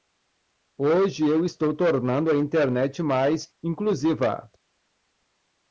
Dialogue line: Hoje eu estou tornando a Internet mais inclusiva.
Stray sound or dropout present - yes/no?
no